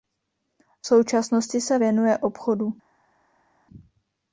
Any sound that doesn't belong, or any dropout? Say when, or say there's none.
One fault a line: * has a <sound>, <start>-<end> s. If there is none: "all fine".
all fine